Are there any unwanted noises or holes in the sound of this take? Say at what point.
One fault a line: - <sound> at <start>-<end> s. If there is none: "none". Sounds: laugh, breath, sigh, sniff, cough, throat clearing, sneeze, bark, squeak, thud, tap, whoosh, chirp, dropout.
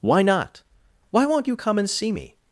none